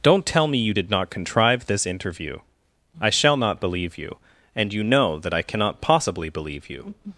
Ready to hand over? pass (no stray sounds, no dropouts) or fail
pass